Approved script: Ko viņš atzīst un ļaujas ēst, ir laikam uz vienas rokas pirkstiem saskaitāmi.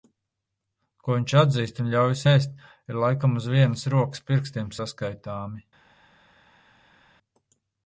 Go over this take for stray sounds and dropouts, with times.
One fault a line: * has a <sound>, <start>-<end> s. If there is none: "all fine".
all fine